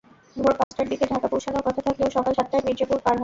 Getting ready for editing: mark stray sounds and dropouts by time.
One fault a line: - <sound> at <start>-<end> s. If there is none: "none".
- dropout at 0.6-0.7 s